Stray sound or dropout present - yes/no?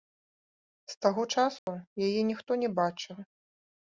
yes